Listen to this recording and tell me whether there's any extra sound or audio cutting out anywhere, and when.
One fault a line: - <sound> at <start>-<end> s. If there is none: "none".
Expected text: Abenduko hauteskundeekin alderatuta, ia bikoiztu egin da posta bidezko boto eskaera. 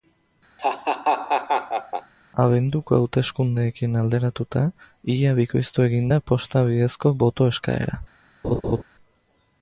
- laugh at 0.6-2.1 s
- laugh at 8.4-8.8 s